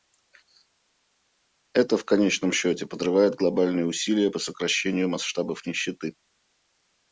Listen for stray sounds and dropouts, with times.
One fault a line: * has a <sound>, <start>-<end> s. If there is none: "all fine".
all fine